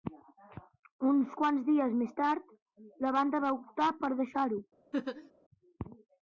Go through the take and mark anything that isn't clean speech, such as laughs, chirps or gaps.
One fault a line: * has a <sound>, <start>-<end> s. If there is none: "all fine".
* has a laugh, 4.9-5.3 s